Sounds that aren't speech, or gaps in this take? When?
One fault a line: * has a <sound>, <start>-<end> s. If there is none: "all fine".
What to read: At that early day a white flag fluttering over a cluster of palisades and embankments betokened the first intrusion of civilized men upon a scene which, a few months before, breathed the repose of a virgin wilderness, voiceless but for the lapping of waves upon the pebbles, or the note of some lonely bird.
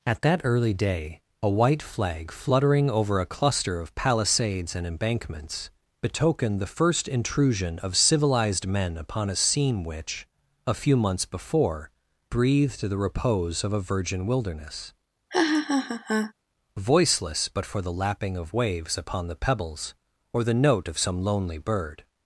* has a laugh, 15.3-16.3 s